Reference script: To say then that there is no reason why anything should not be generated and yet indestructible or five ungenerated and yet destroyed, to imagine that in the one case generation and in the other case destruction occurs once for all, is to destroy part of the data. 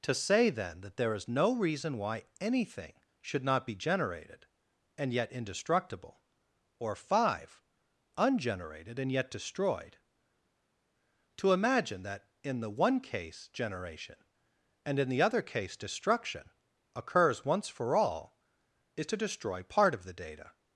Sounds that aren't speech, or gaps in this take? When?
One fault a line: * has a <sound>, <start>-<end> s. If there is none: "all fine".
all fine